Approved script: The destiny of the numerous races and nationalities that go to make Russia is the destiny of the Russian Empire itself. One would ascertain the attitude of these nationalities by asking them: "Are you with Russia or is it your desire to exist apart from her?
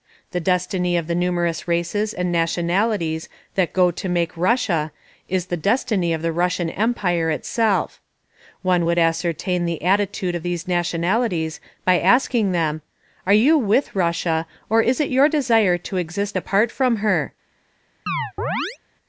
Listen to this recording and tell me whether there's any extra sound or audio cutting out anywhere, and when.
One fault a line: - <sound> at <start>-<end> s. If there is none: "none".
- chirp at 18.1-18.8 s